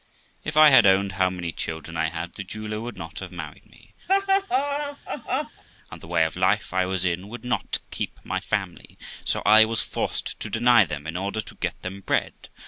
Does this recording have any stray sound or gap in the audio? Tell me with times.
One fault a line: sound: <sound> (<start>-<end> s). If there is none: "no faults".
sound: laugh (4.1-5.6 s)